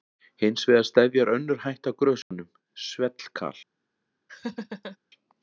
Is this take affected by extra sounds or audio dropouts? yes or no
yes